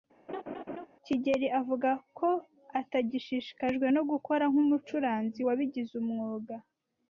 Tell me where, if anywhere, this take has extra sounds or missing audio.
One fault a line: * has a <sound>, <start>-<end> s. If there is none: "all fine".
* has a laugh, 0.3-0.9 s